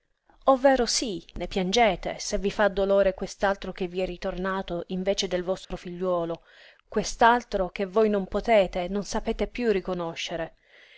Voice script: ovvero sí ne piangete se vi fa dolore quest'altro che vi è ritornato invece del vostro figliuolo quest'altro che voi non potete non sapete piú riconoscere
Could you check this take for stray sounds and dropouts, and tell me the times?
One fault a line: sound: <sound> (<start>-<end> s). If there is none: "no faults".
sound: dropout (5.6-5.7 s)